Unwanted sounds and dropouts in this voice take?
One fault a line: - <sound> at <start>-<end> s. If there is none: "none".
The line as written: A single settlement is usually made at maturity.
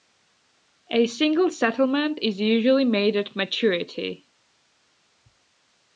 none